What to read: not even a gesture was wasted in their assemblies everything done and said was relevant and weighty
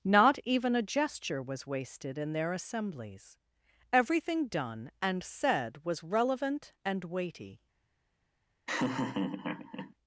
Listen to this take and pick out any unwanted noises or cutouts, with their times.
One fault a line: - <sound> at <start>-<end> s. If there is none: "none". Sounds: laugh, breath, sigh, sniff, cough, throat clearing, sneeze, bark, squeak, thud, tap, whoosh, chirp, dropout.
- laugh at 8.7-9.9 s